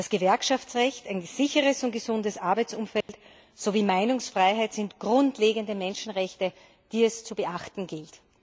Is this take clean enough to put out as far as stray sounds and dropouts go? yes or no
no